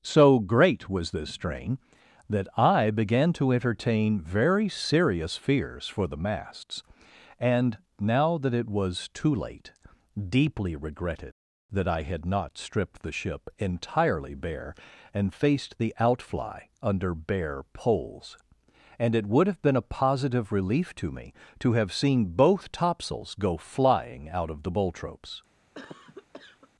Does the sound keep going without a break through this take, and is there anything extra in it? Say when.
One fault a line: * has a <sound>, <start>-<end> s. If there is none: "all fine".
* has a cough, 25.7-26.7 s